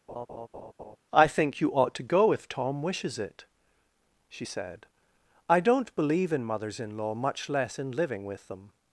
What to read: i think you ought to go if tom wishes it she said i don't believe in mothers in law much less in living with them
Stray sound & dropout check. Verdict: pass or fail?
fail